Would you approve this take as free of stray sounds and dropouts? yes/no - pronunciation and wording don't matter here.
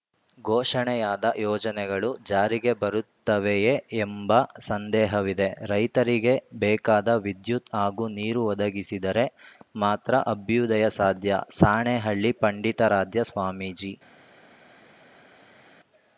yes